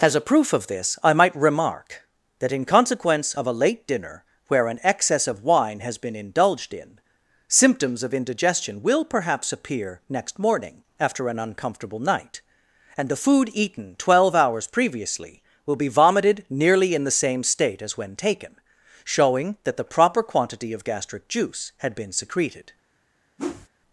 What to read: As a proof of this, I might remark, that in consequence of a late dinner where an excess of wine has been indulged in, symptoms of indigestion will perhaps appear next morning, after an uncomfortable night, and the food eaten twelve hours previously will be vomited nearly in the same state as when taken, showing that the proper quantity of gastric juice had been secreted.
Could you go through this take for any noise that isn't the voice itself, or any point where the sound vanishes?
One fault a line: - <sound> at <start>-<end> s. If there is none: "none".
- whoosh at 23.4-23.7 s